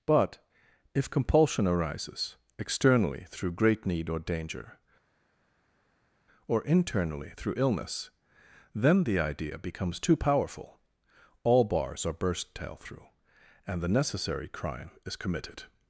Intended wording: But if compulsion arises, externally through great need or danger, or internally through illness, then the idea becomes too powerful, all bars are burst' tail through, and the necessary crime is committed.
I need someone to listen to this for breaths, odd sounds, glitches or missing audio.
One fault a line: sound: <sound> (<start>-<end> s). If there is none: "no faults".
no faults